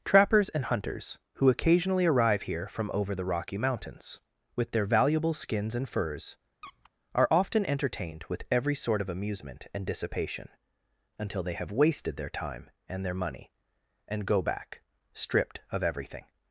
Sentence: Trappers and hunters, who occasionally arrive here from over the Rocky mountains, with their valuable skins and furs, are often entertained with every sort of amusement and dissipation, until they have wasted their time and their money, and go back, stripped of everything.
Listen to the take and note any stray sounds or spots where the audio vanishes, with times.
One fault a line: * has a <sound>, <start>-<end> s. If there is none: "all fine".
* has a squeak, 6.6-6.9 s